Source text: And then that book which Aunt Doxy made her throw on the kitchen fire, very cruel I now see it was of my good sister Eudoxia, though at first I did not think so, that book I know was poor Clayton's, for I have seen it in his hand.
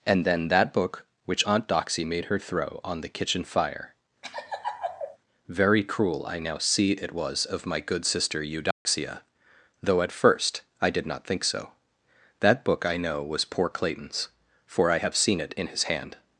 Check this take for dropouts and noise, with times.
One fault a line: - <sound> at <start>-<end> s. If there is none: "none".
- laugh at 4.2-5.2 s
- dropout at 8.7-8.9 s